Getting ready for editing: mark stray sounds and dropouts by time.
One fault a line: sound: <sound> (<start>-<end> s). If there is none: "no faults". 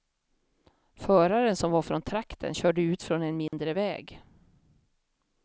sound: dropout (3.5-3.5 s)